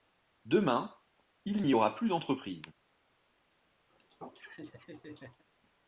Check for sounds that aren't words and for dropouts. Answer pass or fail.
fail